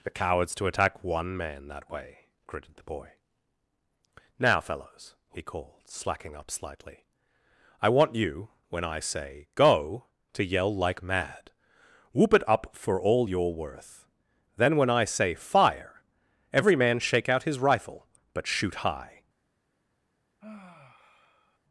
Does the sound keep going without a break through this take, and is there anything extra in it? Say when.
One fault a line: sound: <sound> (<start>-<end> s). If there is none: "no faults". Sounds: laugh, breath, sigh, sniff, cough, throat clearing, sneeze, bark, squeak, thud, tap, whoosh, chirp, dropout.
sound: sigh (20.4-21.6 s)